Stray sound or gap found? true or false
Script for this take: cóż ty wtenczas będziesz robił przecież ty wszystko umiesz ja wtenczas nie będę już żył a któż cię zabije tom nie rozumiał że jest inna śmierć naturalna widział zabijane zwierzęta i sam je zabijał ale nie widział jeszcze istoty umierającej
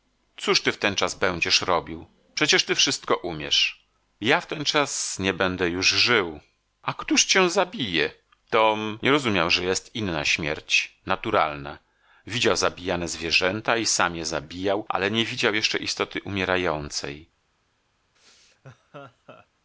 true